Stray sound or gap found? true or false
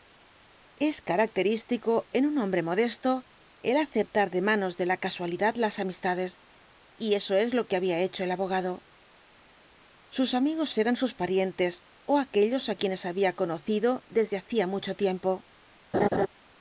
true